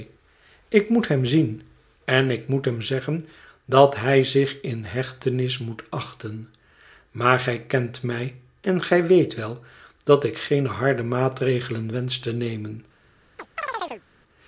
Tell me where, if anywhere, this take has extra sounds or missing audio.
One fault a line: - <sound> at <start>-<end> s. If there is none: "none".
- chirp at 13.4-14.0 s